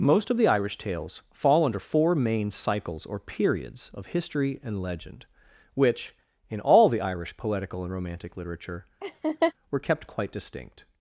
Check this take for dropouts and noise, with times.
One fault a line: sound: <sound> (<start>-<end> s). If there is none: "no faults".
sound: laugh (9.0-9.5 s)